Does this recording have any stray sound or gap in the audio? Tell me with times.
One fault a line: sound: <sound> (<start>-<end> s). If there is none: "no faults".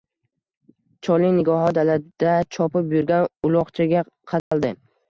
sound: dropout (4.4-4.5 s)